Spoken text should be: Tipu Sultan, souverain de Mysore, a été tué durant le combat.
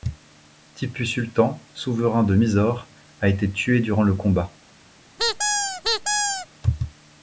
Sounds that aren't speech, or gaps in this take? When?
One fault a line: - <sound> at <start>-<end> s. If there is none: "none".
- squeak at 5.2-6.5 s